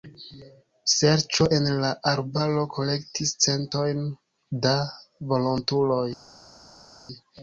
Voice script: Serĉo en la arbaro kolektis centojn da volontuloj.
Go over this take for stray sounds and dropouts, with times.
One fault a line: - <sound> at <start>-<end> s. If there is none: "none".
none